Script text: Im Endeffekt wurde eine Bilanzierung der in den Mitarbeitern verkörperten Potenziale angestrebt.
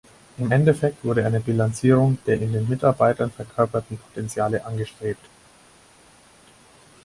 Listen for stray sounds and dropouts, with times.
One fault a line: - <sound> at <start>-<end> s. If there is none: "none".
none